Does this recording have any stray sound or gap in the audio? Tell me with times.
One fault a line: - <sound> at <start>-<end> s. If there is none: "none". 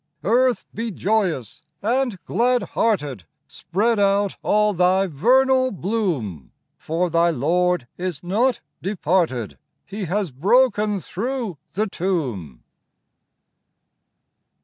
none